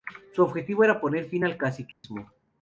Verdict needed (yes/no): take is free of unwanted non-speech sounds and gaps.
no